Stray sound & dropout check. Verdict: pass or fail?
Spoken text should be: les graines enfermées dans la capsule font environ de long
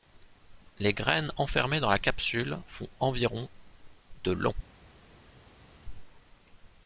pass